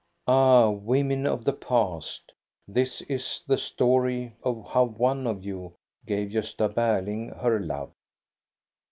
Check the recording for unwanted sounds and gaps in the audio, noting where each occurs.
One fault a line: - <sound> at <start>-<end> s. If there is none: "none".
none